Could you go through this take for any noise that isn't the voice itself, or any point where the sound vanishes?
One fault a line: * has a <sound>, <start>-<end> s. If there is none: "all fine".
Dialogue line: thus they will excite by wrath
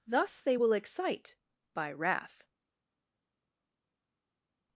all fine